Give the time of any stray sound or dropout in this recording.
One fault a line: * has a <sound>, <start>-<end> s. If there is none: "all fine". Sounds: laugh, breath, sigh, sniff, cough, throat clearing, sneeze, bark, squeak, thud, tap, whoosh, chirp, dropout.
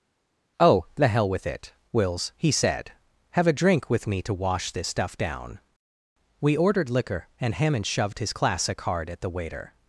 all fine